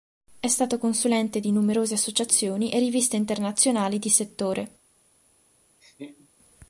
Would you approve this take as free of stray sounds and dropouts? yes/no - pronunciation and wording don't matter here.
no